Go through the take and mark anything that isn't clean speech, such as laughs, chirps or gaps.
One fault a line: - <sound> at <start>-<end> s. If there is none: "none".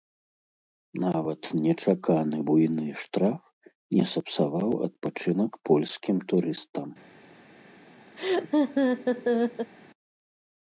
- laugh at 8.2-9.7 s